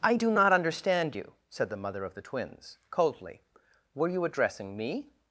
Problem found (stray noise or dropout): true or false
false